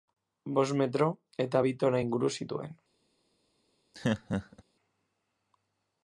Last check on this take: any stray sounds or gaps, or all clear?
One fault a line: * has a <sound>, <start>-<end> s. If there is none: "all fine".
* has a laugh, 3.9-4.6 s